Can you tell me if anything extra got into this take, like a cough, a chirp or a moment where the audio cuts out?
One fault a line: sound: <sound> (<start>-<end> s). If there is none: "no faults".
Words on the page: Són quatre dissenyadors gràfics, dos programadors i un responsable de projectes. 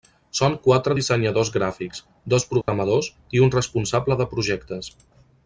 sound: dropout (2.6-2.7 s)